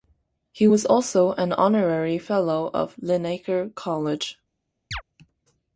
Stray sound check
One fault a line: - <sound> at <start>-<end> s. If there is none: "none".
- chirp at 4.9-5.0 s